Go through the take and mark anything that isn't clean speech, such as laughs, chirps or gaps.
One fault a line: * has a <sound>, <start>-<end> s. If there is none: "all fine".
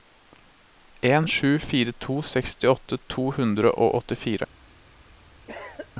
* has a cough, 5.5-5.9 s